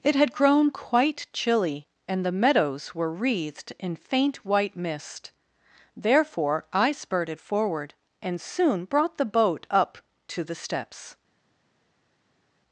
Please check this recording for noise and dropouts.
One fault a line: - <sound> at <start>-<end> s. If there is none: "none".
none